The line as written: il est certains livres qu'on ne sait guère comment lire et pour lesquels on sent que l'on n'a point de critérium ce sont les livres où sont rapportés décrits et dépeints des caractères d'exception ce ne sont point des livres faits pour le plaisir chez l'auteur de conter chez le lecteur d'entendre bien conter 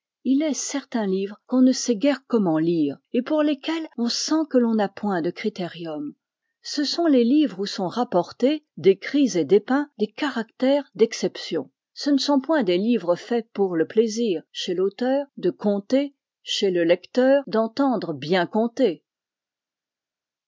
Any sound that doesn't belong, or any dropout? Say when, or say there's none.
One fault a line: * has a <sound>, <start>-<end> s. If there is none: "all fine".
all fine